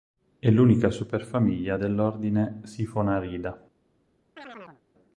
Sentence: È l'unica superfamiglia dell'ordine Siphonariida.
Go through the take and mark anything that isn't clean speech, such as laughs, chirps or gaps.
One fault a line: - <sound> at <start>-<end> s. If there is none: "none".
- chirp at 4.4-4.8 s